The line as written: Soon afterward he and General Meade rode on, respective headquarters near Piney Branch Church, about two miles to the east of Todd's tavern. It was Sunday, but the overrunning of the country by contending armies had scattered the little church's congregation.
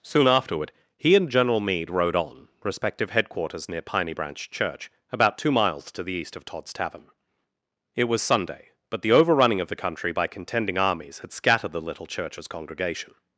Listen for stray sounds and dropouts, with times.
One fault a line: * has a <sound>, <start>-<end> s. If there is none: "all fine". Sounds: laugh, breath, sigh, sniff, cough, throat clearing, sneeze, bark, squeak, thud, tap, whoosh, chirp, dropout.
all fine